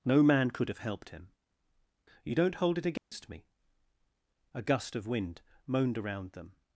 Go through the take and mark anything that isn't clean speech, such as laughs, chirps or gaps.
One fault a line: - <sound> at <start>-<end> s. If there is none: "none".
- dropout at 3.0-3.1 s